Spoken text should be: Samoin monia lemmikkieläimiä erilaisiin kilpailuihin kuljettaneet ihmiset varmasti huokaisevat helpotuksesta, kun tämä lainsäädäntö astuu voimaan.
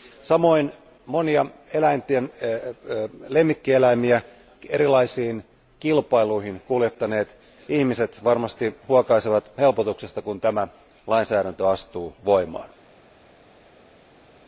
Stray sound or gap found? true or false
false